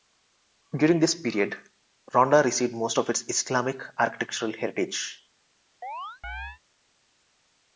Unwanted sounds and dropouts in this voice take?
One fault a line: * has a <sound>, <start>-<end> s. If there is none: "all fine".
* has a chirp, 5.8-6.6 s